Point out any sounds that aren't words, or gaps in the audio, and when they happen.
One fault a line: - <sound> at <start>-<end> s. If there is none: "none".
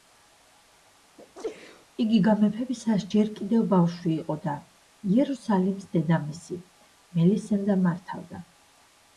- sneeze at 1.2-1.9 s